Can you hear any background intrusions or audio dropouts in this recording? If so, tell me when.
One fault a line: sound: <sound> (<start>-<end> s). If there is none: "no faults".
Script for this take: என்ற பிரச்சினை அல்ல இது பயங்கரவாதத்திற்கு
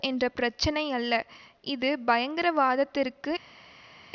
no faults